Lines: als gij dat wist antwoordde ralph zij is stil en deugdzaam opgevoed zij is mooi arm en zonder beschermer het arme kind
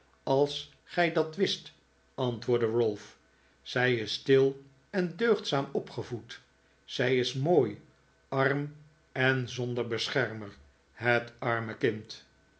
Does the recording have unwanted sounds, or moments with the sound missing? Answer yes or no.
no